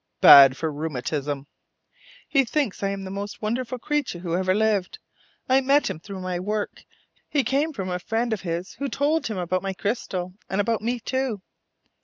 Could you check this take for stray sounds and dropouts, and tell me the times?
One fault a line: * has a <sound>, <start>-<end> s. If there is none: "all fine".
all fine